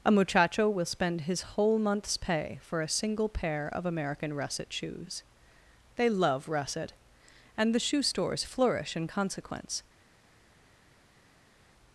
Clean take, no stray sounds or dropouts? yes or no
yes